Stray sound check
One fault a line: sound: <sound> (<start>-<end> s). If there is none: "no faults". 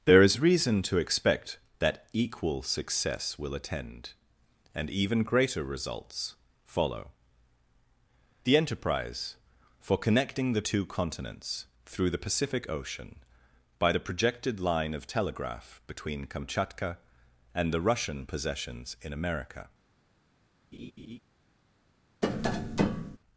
sound: laugh (20.7-21.2 s)
sound: tap (22.2-23.2 s)